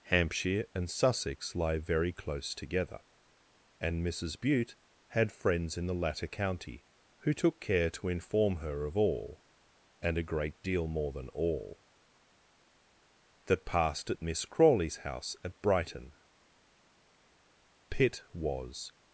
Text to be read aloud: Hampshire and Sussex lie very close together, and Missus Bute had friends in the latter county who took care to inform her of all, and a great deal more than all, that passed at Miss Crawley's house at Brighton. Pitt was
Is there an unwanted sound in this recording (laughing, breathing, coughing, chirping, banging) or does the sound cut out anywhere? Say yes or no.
no